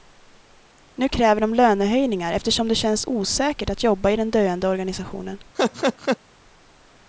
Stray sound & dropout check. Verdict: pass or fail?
fail